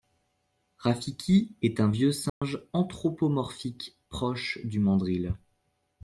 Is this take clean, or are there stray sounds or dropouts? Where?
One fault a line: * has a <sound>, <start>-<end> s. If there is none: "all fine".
* has a dropout, 2.3-2.4 s